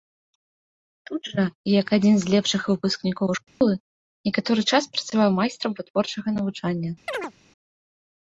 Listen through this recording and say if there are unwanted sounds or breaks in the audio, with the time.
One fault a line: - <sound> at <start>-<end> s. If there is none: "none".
- dropout at 3.5-3.6 s
- chirp at 7.1-7.3 s